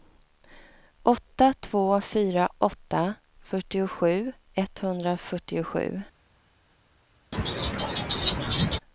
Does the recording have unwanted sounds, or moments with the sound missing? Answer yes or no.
yes